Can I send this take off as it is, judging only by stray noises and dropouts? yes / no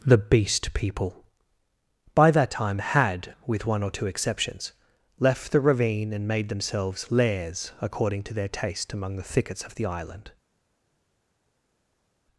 yes